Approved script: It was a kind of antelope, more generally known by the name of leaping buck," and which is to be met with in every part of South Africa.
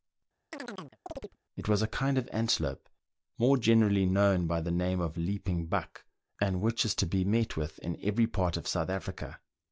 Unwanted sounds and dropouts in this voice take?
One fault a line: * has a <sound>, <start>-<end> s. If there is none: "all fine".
* has a chirp, 0.5-1.4 s